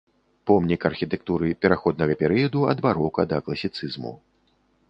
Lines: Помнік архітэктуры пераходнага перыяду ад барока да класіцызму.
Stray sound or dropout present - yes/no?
no